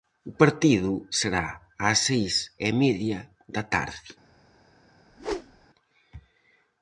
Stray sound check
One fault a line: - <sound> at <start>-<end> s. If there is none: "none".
- whoosh at 5.1-5.7 s